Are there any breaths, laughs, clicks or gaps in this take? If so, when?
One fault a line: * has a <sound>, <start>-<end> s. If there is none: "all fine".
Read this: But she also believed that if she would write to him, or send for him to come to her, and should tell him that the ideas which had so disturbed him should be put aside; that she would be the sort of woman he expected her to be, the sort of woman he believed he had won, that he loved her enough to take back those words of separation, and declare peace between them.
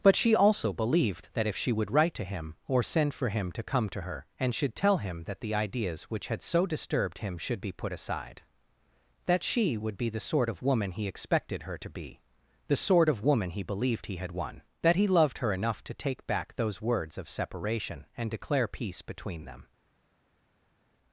all fine